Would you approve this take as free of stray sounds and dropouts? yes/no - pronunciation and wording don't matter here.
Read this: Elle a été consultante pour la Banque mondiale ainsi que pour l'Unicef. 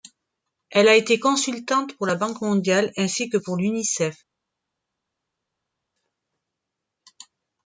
yes